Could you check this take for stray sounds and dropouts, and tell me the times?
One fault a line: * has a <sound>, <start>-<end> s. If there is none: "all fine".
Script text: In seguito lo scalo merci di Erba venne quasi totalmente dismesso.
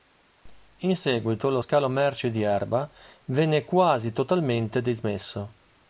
all fine